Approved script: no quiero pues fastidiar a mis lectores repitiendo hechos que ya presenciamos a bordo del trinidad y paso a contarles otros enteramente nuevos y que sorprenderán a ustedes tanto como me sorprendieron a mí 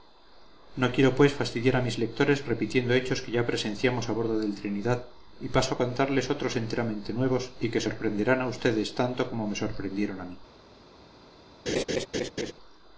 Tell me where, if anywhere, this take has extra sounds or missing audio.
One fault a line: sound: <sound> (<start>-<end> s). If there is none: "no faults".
sound: laugh (11.7-12.5 s)